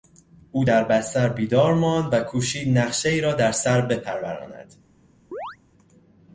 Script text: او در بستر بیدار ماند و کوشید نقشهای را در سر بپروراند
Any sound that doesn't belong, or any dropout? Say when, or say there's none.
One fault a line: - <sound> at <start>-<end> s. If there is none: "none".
- chirp at 5.3-5.6 s